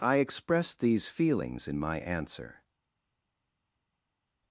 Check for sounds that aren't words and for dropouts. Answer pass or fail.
pass